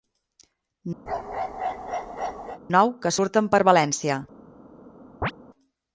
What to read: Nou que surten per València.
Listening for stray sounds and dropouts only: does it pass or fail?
fail